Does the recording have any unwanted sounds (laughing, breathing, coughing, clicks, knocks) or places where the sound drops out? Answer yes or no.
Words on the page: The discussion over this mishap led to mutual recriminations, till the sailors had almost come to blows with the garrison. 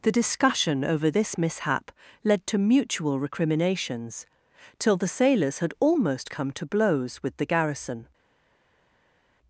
no